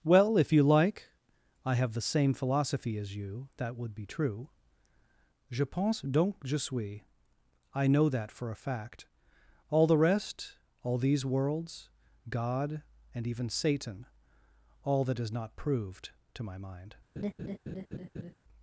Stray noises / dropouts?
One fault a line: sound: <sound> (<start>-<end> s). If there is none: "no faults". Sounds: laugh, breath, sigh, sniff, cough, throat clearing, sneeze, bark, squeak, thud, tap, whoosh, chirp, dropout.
sound: laugh (17.2-18.3 s)